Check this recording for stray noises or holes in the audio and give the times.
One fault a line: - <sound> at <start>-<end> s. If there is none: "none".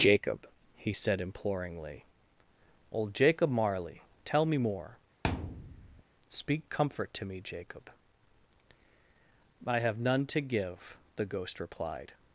- thud at 5.2-6.0 s